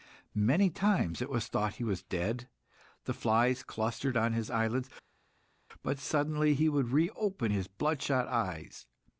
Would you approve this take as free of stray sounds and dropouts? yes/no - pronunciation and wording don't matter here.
yes